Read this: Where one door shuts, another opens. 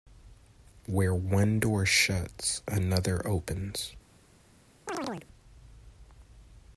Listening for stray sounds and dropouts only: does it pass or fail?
fail